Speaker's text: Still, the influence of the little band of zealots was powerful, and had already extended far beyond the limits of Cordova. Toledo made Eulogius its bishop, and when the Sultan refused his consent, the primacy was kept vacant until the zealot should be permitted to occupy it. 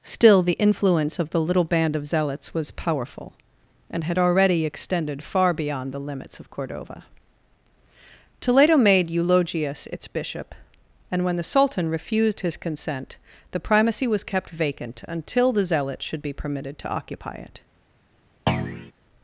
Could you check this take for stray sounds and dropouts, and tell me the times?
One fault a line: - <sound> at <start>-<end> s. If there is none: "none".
- thud at 18.5-18.9 s